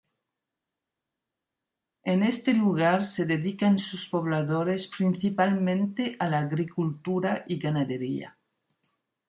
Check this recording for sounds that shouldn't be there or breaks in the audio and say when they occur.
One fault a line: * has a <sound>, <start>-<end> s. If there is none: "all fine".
all fine